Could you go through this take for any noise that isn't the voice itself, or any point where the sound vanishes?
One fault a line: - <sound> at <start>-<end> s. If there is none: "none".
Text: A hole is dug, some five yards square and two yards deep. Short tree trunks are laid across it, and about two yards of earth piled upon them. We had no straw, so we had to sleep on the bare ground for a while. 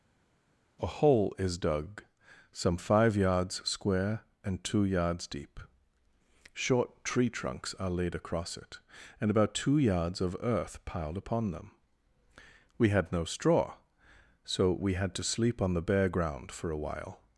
none